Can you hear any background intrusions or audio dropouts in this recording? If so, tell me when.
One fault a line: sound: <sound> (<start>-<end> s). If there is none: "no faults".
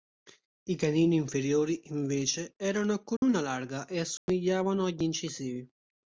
sound: dropout (3.2-3.2 s)
sound: dropout (4.2-4.3 s)